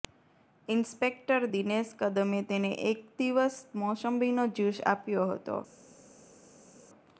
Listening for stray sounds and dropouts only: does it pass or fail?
pass